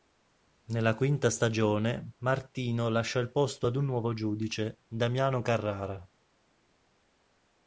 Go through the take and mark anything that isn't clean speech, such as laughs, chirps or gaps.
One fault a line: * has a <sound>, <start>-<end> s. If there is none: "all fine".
all fine